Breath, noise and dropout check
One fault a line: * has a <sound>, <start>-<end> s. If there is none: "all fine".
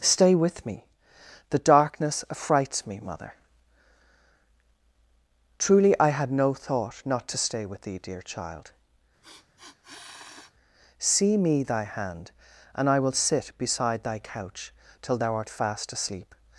* has a sniff, 9.2-10.5 s